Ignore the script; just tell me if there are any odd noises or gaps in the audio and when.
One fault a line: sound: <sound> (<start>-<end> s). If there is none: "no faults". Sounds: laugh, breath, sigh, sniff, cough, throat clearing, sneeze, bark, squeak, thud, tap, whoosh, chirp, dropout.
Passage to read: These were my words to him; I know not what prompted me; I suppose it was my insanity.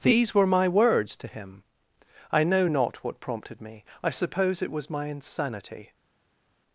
no faults